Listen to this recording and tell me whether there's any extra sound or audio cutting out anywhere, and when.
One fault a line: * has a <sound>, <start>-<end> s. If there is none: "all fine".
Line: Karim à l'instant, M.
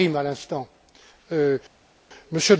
all fine